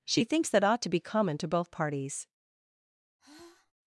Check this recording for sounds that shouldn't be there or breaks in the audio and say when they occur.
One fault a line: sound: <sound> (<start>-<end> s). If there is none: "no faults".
sound: sigh (3.2-3.7 s)